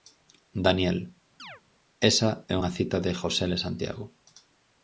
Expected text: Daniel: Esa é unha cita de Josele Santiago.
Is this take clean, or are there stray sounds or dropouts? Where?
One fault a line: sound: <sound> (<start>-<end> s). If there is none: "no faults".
sound: chirp (1.4-1.6 s)